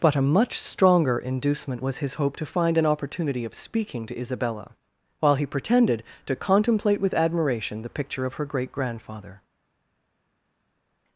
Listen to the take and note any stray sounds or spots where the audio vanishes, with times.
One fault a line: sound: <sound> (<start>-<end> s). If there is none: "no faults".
no faults